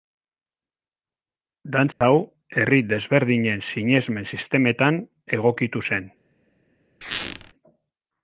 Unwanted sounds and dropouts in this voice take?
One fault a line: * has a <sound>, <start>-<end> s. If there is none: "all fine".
* has a dropout, 1.9-2.0 s
* has a squeak, 7.0-7.5 s